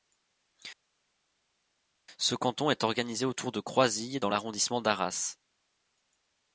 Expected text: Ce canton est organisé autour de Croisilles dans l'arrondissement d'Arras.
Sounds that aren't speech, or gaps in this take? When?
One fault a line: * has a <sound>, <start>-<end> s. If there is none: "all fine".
all fine